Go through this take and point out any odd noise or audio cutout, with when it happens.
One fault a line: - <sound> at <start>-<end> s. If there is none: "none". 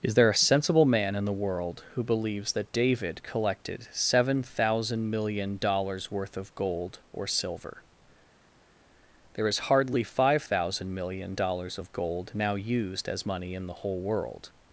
none